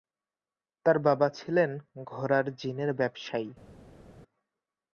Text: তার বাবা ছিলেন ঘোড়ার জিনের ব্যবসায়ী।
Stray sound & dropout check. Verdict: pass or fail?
pass